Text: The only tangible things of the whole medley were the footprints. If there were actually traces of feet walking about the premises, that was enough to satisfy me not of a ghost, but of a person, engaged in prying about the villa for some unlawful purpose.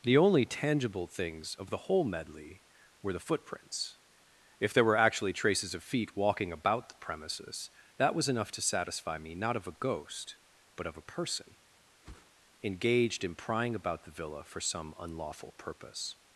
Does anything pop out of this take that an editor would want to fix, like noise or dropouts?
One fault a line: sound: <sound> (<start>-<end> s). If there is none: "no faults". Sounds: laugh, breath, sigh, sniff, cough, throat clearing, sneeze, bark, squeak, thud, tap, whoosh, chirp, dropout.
sound: whoosh (12.0-12.3 s)